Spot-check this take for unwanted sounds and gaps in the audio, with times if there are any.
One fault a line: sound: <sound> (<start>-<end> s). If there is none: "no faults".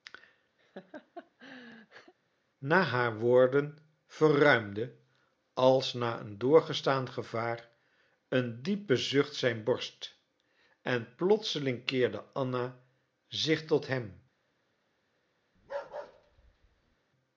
sound: laugh (0.6-2.1 s)
sound: bark (15.6-17.0 s)